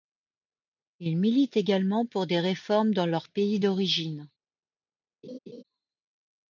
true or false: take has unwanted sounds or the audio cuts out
true